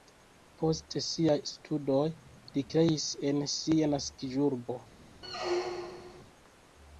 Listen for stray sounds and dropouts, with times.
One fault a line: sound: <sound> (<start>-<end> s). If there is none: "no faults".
sound: squeak (5.2-6.2 s)